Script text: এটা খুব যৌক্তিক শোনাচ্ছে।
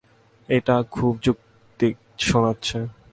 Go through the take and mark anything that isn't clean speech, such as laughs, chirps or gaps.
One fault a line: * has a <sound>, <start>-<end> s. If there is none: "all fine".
all fine